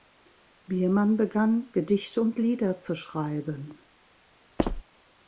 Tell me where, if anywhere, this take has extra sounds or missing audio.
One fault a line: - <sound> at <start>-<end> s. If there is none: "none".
- squeak at 4.6-4.8 s